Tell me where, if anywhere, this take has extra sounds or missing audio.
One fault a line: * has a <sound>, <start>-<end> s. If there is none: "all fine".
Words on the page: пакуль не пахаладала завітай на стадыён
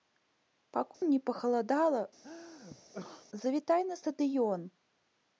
* has a dropout, 0.9-1.0 s
* has a sneeze, 2.2-3.3 s